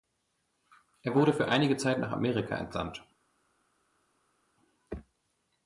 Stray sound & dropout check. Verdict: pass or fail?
pass